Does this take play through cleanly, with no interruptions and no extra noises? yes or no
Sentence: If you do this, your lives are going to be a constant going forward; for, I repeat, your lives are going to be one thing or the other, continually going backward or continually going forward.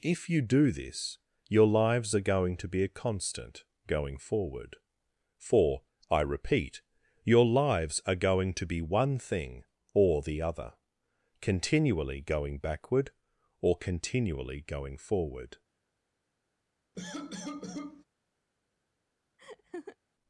no